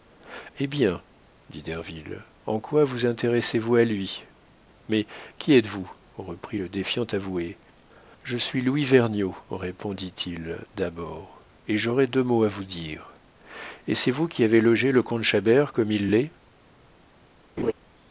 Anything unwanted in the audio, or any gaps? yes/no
yes